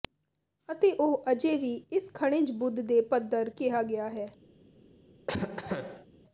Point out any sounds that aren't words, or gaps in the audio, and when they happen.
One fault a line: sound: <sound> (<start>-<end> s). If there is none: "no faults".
sound: cough (5.3-6.1 s)